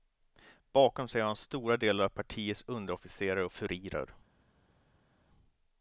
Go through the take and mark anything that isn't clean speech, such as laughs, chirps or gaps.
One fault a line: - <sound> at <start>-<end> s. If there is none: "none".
none